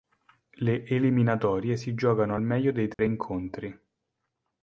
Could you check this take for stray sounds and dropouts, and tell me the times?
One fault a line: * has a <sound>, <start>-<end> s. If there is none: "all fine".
* has a dropout, 2.9-3.0 s